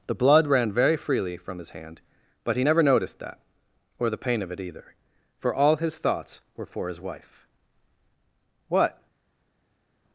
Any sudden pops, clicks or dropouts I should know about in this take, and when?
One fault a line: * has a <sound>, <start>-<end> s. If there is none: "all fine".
all fine